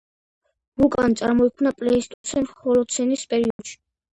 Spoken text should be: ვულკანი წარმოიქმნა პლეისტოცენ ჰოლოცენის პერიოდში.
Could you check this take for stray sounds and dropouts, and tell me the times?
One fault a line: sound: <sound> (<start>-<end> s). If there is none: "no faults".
sound: dropout (2.1-2.2 s)
sound: dropout (3.5-3.6 s)